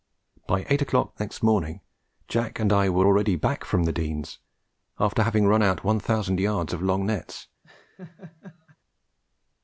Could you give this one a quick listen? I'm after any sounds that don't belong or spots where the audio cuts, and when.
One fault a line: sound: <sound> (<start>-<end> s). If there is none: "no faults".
sound: laugh (7.6-8.8 s)